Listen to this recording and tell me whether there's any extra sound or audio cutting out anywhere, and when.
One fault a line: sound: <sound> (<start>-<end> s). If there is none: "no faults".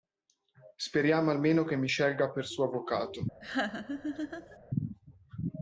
sound: laugh (3.4-4.6 s)